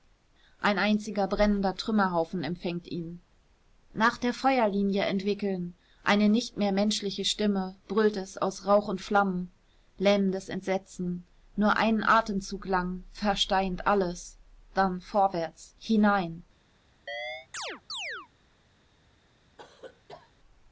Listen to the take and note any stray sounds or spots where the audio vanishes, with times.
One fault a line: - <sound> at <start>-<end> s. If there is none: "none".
- chirp at 17.1-18.3 s
- cough at 19.6-20.3 s